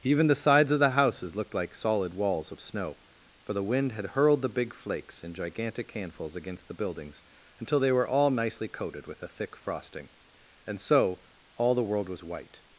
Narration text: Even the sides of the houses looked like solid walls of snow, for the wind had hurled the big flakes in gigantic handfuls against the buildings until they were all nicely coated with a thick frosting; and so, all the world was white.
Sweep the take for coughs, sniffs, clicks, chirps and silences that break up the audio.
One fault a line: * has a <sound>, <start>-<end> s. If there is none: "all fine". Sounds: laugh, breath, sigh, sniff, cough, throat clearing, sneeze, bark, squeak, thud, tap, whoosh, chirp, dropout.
all fine